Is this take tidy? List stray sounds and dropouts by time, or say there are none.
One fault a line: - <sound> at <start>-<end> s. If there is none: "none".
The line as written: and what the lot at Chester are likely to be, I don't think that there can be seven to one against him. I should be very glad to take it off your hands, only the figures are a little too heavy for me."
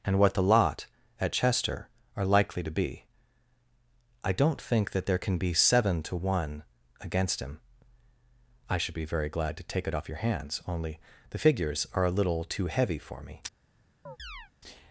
- chirp at 14.1-14.5 s